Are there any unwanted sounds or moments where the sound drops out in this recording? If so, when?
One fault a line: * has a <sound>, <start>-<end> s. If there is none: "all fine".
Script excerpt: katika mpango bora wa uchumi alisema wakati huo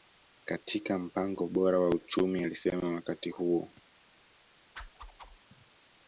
* has a whoosh, 4.8-5.4 s